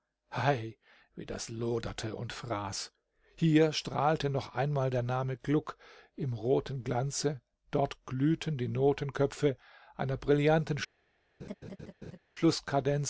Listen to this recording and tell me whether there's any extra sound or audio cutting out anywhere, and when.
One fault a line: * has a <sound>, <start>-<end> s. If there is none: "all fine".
* has a laugh, 11.4-12.2 s